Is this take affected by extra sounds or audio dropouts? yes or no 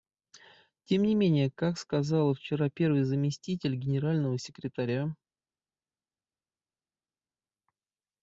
no